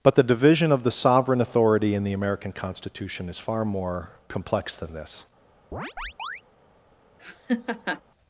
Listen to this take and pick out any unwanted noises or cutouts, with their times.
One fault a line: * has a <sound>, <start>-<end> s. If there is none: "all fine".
* has a chirp, 5.7-6.4 s
* has a laugh, 7.2-8.0 s